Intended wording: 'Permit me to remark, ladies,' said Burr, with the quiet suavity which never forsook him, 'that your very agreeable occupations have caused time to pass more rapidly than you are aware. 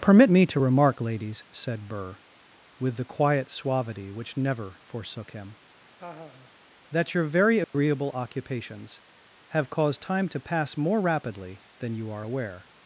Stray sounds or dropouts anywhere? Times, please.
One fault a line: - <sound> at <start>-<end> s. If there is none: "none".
- laugh at 6.0-6.5 s
- dropout at 7.6-7.7 s